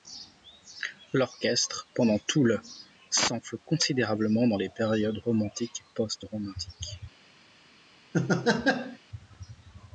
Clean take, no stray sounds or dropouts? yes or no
no